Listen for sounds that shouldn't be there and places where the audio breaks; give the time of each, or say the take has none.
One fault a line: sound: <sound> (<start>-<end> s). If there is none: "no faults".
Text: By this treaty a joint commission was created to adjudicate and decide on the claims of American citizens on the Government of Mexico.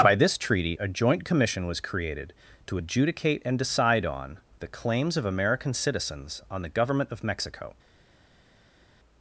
no faults